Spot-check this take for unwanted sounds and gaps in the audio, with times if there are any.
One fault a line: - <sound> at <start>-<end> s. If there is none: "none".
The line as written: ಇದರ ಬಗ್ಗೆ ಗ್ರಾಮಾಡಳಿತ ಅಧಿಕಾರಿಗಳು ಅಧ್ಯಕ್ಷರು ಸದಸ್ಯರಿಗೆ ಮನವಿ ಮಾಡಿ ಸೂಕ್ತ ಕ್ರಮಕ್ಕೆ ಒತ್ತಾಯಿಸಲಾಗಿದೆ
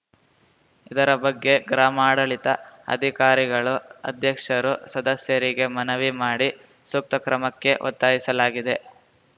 none